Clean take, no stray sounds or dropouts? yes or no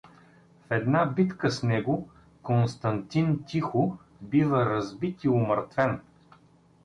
yes